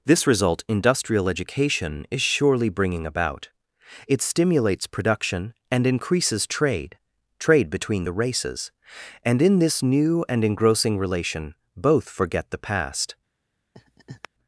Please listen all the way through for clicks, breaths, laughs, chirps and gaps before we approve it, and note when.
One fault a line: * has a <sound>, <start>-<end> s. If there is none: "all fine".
* has a laugh, 13.7-14.3 s